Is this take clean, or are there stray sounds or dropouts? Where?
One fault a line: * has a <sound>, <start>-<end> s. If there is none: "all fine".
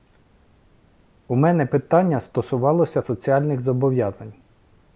all fine